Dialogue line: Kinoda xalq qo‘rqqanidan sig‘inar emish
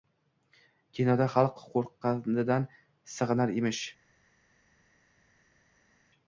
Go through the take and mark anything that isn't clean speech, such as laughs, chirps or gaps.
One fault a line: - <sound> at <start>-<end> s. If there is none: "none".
none